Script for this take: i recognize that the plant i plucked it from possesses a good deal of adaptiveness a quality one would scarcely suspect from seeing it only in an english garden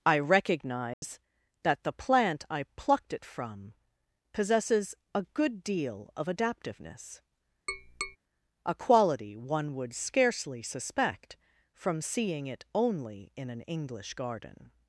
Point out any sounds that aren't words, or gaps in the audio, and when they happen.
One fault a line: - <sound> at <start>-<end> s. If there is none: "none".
- dropout at 0.9-1.0 s
- tap at 7.7-8.2 s